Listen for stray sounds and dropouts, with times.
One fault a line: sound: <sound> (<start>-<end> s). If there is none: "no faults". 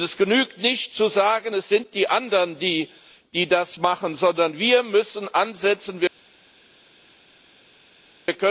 no faults